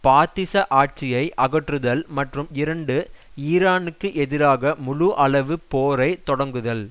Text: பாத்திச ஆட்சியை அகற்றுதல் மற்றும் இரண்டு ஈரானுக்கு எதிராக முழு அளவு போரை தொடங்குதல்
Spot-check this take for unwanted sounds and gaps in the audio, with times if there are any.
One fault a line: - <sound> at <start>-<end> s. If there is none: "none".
none